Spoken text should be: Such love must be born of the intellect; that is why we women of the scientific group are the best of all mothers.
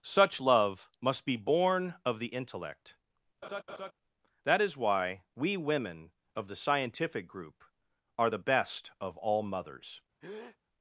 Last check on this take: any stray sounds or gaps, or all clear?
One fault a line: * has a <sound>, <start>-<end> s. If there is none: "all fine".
* has a laugh, 3.4-3.9 s
* has a breath, 10.2-10.6 s